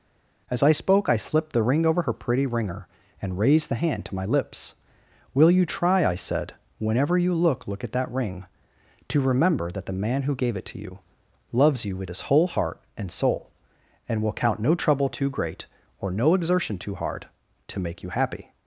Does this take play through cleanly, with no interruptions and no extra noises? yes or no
yes